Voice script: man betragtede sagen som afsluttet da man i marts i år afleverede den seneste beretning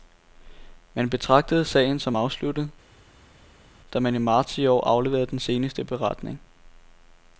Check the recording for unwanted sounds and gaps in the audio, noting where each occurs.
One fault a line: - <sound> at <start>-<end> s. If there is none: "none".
none